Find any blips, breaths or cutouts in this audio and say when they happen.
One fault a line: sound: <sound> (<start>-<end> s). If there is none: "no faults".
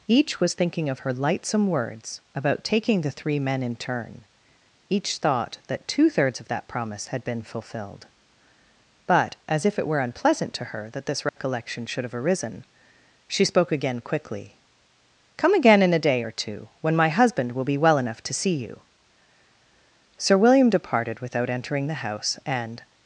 sound: dropout (11.3-11.4 s)